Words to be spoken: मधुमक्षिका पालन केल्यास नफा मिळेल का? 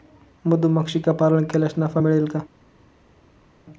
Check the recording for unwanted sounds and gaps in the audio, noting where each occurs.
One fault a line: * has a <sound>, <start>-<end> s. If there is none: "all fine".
all fine